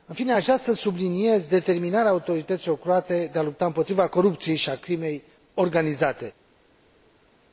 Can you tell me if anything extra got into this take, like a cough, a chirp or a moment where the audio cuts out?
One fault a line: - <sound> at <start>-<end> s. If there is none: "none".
none